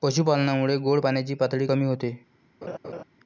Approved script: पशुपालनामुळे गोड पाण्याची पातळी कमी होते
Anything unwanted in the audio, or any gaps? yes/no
yes